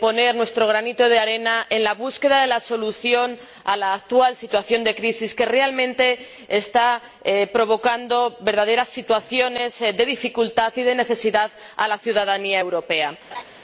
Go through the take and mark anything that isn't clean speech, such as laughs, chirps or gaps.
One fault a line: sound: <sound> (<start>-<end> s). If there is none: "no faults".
sound: laugh (13.3-13.4 s)